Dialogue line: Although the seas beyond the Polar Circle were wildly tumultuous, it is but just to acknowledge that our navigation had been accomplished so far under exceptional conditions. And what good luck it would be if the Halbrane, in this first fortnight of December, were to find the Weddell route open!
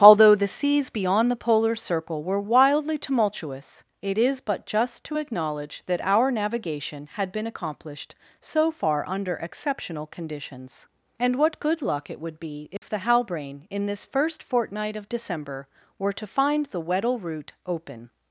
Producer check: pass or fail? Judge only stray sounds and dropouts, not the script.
fail